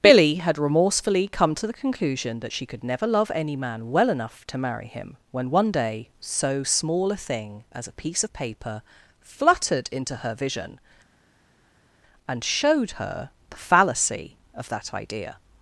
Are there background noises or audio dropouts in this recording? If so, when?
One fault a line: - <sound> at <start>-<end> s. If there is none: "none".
none